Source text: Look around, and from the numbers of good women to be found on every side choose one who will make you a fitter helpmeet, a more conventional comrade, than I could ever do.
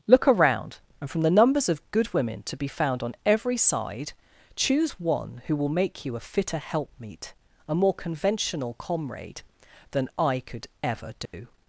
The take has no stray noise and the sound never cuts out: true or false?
false